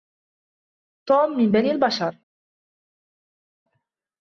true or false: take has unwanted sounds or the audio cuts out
false